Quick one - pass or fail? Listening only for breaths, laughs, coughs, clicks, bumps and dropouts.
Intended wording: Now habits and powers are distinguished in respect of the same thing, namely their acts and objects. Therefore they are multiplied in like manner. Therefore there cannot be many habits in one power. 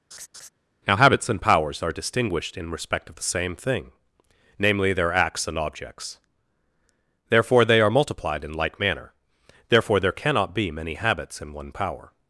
fail